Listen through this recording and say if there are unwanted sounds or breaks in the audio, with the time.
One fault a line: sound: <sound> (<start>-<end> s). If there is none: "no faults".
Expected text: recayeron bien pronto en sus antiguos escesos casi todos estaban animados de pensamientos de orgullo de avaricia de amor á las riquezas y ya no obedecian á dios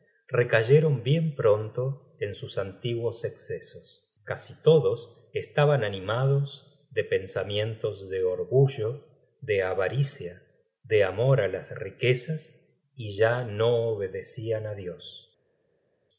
no faults